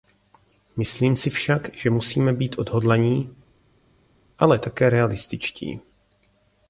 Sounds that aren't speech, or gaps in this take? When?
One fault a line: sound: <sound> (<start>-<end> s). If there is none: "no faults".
no faults